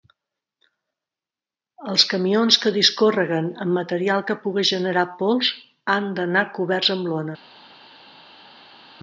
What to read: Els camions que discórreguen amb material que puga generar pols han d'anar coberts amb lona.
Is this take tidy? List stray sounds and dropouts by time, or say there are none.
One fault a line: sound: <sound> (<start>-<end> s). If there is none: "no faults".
no faults